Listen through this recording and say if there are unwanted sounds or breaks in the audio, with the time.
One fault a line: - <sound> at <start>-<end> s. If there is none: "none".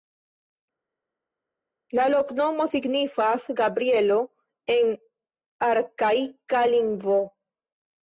none